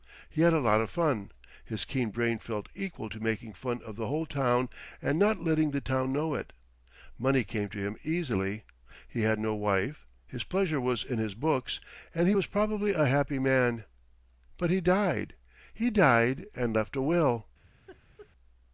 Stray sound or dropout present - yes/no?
yes